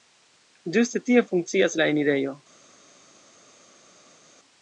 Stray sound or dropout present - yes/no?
no